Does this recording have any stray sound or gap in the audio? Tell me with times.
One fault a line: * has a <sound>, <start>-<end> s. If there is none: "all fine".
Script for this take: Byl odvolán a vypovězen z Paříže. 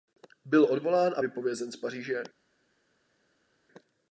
all fine